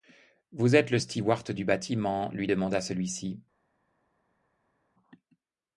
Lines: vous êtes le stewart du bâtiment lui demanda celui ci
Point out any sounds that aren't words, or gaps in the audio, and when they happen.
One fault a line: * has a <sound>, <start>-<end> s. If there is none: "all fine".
all fine